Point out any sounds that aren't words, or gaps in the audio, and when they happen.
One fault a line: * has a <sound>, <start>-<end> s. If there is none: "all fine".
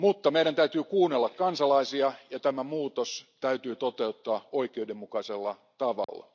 * has a dropout, 6.0-6.1 s